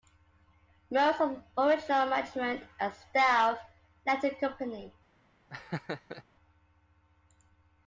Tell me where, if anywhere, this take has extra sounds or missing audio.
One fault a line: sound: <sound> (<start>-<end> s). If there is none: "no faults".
sound: laugh (5.5-6.2 s)